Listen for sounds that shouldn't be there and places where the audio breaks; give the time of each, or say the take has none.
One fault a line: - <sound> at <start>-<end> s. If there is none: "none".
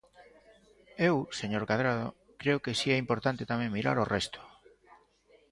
none